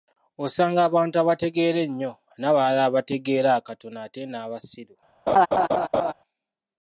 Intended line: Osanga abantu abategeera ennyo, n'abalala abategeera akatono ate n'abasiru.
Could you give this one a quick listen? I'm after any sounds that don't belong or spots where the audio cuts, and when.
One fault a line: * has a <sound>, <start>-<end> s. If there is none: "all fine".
* has a laugh, 5.3-6.1 s